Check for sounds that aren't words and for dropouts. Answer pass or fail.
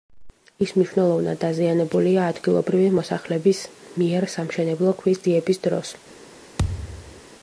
fail